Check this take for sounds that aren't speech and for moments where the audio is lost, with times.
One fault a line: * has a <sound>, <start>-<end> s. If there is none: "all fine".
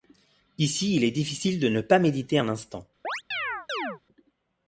* has a chirp, 3.0-4.0 s